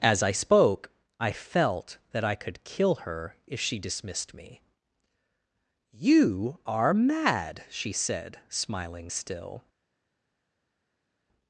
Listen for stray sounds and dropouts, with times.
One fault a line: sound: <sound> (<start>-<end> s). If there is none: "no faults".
no faults